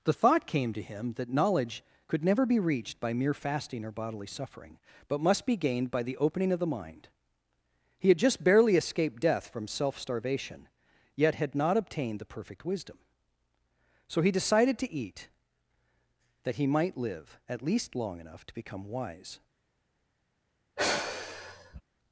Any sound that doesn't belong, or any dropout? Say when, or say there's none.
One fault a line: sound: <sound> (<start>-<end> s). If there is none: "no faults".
sound: sigh (20.8-21.8 s)